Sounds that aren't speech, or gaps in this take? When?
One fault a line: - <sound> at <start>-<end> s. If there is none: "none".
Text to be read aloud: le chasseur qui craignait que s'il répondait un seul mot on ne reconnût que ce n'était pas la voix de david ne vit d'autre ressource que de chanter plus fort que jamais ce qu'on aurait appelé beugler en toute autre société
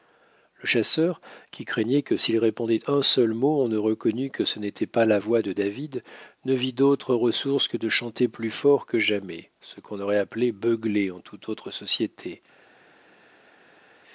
none